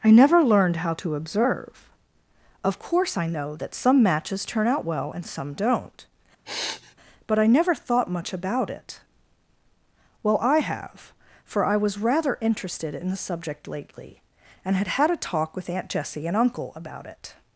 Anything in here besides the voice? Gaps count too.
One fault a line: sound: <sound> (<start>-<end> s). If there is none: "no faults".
sound: sniff (6.4-6.9 s)